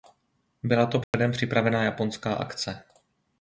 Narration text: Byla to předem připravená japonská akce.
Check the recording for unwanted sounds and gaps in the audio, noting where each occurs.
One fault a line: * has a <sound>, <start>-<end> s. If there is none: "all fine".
* has a dropout, 1.0-1.1 s